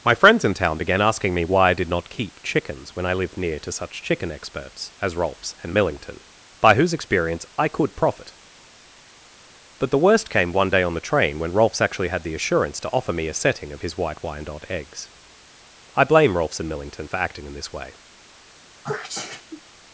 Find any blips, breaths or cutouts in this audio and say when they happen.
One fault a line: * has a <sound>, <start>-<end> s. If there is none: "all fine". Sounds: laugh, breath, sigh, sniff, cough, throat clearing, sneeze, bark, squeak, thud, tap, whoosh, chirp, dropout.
* has a sneeze, 18.8-19.6 s